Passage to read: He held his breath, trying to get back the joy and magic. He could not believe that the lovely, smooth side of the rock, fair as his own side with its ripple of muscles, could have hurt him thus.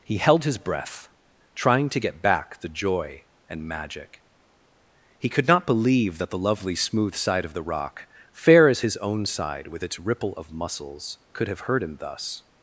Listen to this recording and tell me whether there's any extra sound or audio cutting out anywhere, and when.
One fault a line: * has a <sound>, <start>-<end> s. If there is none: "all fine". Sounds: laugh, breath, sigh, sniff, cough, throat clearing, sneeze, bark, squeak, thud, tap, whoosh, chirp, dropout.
all fine